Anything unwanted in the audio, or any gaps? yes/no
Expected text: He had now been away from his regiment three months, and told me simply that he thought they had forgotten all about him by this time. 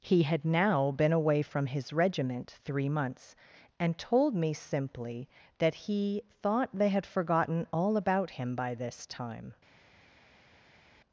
no